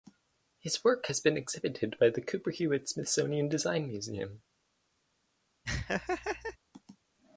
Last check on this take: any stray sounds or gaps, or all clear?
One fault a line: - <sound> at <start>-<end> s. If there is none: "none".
- laugh at 5.6-6.6 s